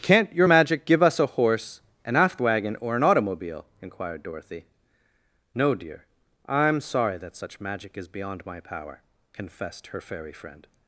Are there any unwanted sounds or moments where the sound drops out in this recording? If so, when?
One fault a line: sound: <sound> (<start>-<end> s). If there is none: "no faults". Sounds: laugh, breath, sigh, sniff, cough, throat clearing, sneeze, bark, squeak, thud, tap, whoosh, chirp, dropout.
no faults